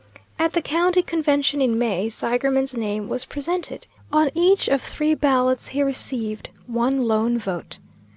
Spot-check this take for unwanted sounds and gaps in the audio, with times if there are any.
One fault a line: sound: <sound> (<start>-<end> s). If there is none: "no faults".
no faults